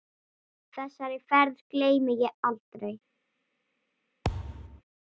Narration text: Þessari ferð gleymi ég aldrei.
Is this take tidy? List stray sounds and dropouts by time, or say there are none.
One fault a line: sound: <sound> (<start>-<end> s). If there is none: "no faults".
sound: thud (4.2-4.8 s)